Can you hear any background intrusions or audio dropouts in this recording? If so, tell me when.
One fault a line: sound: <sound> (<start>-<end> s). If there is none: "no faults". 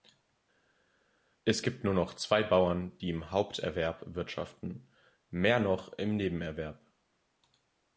no faults